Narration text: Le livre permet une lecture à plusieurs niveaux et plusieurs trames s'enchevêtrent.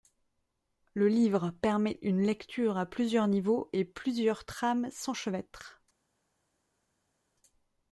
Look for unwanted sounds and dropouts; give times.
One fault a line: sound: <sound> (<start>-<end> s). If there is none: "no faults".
no faults